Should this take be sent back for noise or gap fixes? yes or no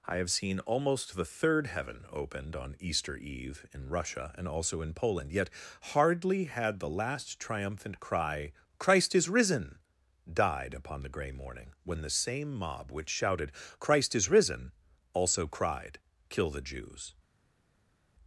no